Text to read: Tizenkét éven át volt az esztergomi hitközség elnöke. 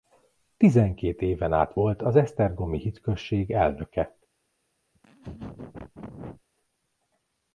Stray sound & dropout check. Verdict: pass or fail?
fail